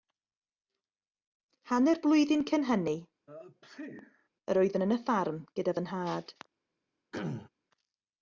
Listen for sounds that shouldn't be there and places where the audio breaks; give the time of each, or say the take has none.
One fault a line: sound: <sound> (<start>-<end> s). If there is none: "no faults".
sound: sneeze (3.3-4.3 s)
sound: throat clearing (7.1-7.5 s)